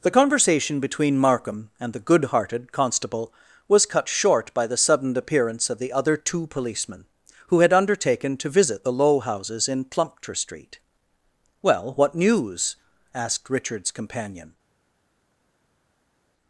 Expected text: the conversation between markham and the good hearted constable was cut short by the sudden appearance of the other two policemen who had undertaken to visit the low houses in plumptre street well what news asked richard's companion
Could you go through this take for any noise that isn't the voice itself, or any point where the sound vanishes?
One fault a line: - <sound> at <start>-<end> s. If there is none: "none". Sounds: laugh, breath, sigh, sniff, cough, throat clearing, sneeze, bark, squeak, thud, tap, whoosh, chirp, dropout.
none